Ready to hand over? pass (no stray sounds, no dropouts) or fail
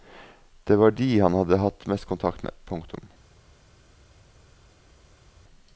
pass